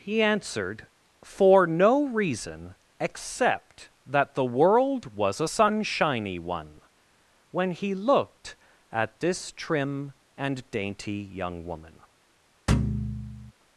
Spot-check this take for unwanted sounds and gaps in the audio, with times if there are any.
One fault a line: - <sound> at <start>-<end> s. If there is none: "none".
- thud at 12.7-13.5 s